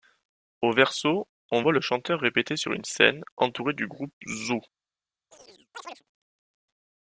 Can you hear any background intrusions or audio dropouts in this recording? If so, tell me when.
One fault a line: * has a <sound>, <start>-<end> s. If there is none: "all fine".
* has a chirp, 5.3-6.0 s